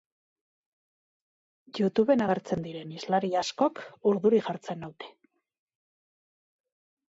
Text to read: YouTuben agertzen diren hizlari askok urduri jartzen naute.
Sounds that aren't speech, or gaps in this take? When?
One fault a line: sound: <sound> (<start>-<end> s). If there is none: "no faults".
no faults